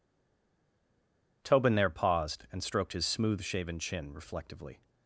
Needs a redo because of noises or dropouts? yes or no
no